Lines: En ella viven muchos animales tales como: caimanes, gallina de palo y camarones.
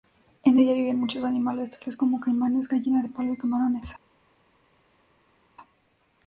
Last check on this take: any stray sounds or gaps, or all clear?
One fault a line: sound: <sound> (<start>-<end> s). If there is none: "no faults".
no faults